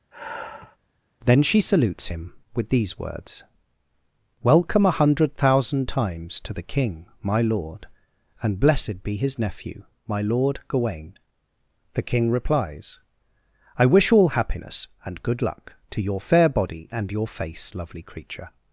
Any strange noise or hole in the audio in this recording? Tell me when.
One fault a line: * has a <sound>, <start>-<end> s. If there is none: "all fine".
* has a sigh, 0.1-0.8 s